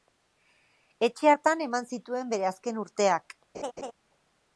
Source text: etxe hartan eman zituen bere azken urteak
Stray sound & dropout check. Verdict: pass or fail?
fail